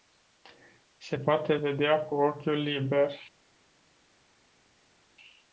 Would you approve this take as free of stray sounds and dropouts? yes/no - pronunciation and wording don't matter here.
yes